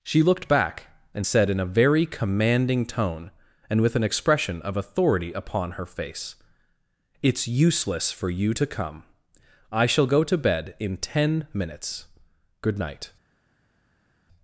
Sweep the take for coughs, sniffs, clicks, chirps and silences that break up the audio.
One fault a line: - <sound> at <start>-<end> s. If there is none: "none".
none